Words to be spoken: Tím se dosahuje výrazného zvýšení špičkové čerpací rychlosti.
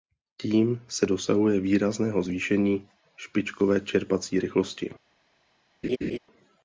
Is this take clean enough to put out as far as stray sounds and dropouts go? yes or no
no